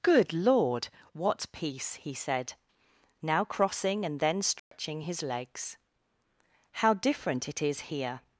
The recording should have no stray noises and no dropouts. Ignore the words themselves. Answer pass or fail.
fail